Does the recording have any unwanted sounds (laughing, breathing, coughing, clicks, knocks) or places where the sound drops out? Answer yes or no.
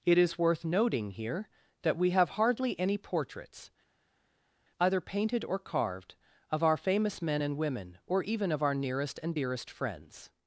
no